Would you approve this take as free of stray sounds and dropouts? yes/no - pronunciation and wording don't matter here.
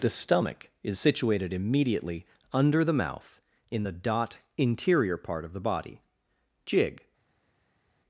yes